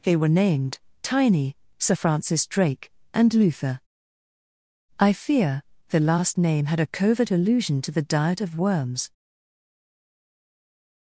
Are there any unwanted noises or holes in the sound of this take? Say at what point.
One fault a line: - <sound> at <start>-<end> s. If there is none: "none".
none